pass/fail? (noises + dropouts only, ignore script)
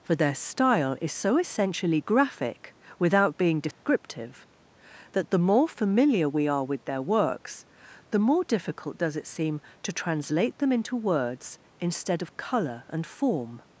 fail